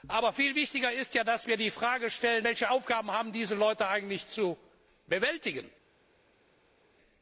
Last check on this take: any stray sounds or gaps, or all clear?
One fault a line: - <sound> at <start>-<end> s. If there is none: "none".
none